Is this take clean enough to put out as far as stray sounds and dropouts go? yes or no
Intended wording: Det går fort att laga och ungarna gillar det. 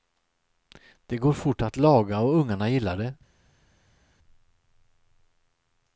yes